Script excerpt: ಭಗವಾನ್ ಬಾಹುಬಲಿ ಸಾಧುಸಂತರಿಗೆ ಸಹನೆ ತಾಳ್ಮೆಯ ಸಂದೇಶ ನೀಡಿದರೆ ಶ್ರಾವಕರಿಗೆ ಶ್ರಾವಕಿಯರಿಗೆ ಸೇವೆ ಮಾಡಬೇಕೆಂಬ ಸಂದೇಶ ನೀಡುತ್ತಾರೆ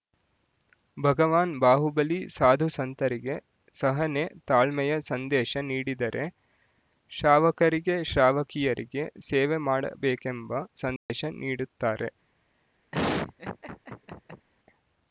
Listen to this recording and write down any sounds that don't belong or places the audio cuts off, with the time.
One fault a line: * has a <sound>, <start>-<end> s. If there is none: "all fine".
* has a dropout, 11.0-11.1 s
* has a laugh, 12.9-14.5 s